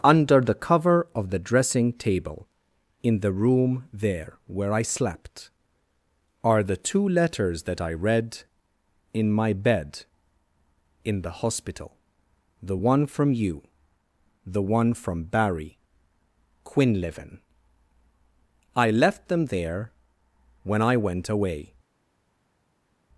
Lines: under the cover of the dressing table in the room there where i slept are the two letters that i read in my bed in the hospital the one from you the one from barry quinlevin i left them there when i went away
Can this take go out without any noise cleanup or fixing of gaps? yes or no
yes